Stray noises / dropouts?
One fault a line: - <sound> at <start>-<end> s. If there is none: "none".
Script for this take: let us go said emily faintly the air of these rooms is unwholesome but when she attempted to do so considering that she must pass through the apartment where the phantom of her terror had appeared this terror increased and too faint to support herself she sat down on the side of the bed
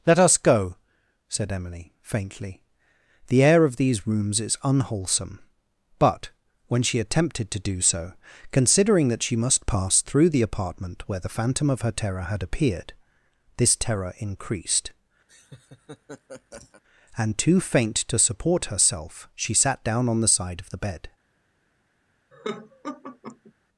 - laugh at 15.3-16.8 s
- laugh at 22.3-23.5 s